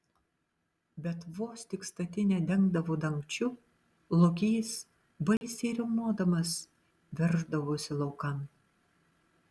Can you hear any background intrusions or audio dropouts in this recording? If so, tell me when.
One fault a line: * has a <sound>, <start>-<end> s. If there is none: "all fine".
* has a dropout, 5.4-5.4 s